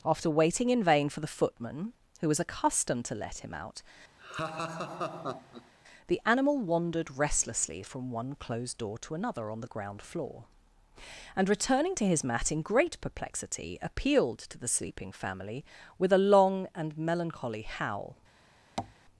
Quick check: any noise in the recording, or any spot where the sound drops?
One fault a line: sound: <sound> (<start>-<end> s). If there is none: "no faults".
sound: laugh (4.2-5.7 s)
sound: tap (18.8-19.0 s)